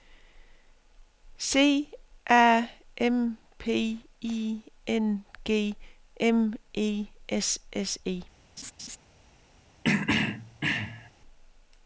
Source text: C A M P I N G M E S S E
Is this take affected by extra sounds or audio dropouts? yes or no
yes